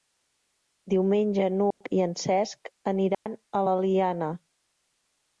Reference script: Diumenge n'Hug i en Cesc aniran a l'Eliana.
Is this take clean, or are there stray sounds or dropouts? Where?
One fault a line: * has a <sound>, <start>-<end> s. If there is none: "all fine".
* has a dropout, 1.7-1.8 s
* has a dropout, 3.1-3.3 s